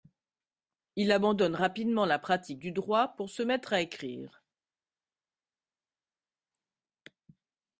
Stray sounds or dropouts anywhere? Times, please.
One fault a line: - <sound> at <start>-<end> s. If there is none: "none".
none